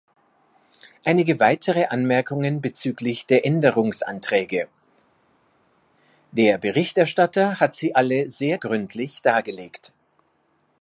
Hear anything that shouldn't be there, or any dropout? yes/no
no